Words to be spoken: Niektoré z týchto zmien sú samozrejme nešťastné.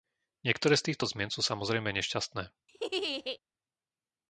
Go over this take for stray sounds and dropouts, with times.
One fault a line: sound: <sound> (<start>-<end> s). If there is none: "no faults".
sound: laugh (2.7-3.4 s)